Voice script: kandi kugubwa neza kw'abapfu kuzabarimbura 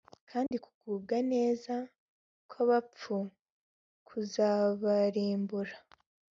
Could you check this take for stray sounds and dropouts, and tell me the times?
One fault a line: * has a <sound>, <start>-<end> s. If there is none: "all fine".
* has a dropout, 0.5-0.5 s